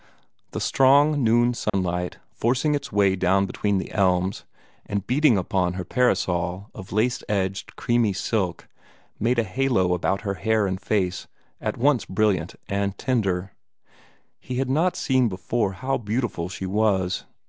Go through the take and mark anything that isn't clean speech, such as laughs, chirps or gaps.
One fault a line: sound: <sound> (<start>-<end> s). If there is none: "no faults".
sound: dropout (1.7-1.7 s)